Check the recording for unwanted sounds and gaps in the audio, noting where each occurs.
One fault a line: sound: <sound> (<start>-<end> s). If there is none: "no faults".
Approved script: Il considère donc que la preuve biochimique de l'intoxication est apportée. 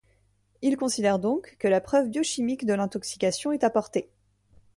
no faults